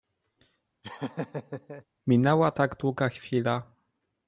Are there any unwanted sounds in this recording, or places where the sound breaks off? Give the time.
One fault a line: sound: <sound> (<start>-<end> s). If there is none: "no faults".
sound: laugh (0.8-1.8 s)